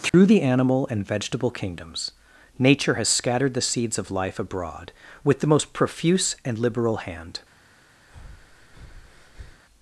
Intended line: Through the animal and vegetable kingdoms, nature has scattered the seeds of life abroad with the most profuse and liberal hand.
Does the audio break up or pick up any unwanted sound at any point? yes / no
yes